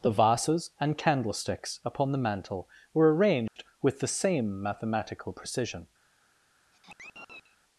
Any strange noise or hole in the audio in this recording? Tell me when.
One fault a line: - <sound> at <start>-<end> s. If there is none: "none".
- dropout at 3.5-3.6 s
- sigh at 6.7-7.6 s